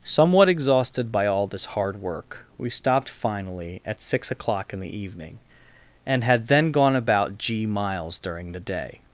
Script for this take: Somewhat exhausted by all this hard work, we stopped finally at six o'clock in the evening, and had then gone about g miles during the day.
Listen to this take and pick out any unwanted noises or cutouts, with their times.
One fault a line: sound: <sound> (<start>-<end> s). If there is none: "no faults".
no faults